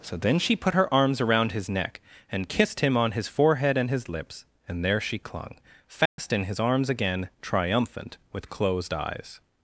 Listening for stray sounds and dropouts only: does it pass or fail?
fail